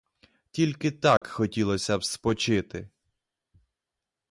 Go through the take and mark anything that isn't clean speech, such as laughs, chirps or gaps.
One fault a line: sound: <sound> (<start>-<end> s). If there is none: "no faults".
sound: dropout (1.2-1.2 s)